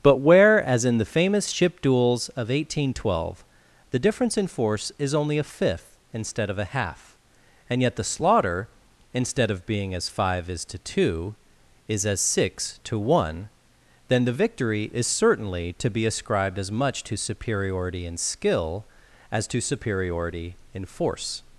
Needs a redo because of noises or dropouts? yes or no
no